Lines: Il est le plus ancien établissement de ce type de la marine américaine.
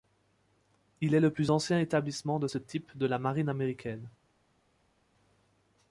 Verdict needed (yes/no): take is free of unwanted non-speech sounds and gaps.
yes